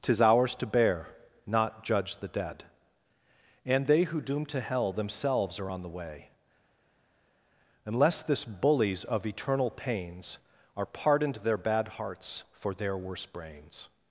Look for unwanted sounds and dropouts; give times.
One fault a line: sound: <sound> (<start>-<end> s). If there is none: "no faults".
no faults